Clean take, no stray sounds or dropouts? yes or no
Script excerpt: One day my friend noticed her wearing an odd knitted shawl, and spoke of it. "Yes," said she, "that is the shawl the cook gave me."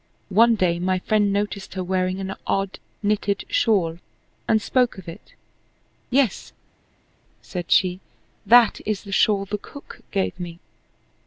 yes